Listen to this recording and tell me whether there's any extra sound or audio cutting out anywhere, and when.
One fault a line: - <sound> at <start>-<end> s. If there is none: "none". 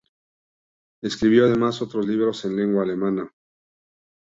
none